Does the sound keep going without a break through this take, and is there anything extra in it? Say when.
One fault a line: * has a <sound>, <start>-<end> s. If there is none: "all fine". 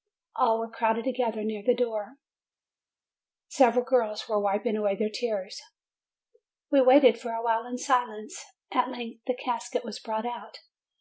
all fine